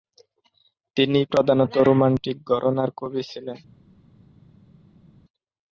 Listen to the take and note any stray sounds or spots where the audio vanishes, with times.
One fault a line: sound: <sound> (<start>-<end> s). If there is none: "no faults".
no faults